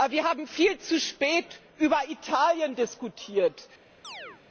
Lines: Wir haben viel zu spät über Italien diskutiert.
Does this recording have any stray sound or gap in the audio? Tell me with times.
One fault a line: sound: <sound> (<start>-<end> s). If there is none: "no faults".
sound: chirp (4.0-4.4 s)